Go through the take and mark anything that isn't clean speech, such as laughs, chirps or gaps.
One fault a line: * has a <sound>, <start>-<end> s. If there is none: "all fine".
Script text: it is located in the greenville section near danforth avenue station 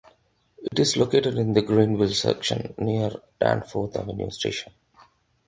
* has a dropout, 0.7-0.7 s